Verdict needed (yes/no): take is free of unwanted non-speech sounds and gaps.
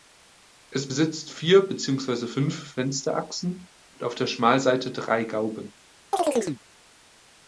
no